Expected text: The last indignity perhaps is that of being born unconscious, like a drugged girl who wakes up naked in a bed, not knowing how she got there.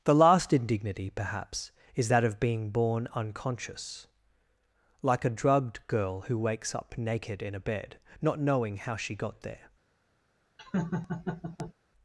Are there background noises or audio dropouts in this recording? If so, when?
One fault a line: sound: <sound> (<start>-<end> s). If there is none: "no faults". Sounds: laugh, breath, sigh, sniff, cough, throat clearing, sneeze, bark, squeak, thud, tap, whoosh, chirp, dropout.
sound: laugh (10.6-11.7 s)